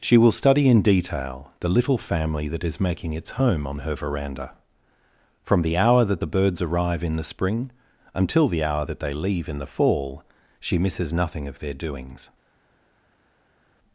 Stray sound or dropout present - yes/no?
no